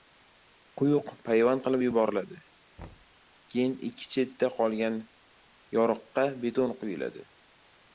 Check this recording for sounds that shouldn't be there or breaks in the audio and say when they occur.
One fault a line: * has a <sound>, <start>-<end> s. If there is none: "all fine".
* has a thud, 2.8-3.2 s